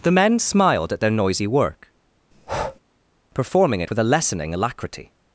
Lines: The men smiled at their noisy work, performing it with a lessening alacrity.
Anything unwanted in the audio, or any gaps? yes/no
yes